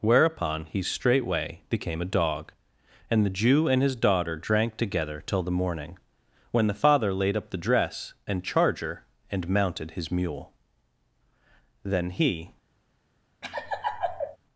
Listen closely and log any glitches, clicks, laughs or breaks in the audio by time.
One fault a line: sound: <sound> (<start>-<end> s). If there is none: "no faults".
sound: laugh (13.4-14.4 s)